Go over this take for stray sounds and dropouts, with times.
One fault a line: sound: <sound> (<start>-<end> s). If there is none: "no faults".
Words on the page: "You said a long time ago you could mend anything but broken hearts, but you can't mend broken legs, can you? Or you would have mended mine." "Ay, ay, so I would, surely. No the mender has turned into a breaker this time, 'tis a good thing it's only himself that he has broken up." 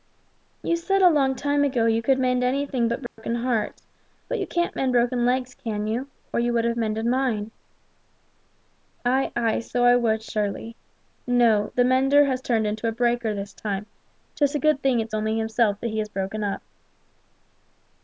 sound: dropout (3.1-3.2 s)